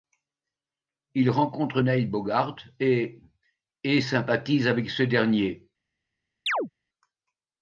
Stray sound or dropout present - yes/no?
yes